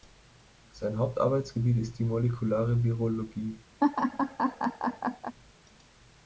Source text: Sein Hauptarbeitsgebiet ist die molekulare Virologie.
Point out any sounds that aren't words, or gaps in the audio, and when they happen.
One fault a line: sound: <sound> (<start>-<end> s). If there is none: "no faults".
sound: laugh (3.8-5.4 s)